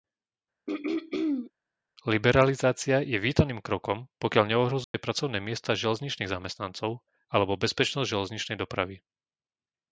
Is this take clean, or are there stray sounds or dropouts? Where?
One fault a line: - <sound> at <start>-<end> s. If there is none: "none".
- throat clearing at 0.7-1.5 s
- dropout at 4.8-4.9 s